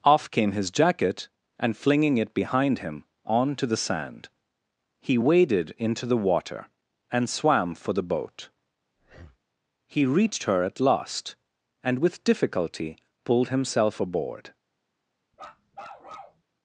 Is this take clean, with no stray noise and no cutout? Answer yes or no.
no